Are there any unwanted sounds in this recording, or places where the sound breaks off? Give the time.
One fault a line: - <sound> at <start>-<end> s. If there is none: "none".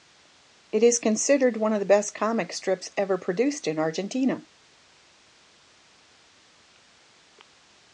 none